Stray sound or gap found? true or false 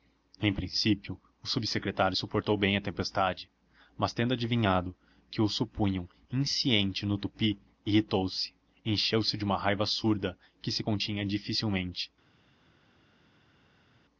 false